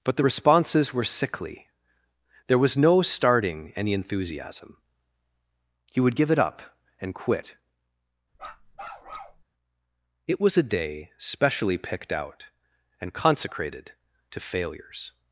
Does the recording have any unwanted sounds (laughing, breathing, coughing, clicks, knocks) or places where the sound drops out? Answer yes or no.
yes